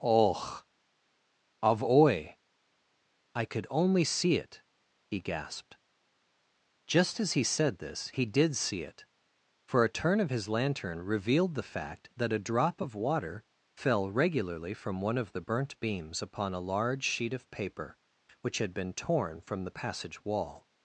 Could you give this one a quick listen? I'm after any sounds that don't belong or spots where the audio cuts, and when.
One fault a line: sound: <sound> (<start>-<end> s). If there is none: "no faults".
no faults